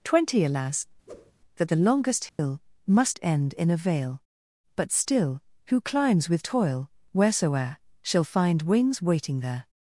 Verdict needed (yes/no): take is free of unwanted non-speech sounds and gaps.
no